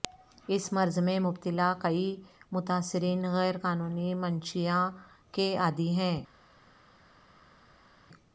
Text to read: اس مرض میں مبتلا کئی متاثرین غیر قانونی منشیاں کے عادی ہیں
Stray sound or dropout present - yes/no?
no